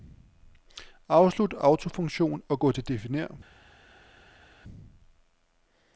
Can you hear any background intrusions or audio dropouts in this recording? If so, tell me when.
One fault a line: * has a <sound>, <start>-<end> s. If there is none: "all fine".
all fine